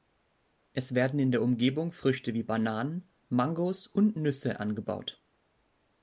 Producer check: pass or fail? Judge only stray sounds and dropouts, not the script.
pass